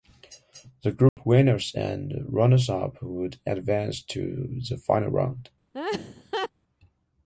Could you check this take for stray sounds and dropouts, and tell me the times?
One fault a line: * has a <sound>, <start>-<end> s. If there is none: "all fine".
* has a dropout, 1.1-1.2 s
* has a laugh, 5.7-6.5 s